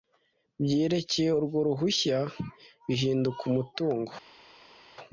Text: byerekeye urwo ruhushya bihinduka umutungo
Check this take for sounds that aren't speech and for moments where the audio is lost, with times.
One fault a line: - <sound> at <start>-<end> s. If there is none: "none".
none